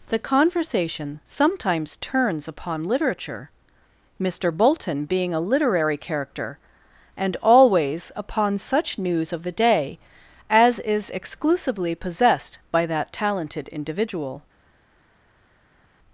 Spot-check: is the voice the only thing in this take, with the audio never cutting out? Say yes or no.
yes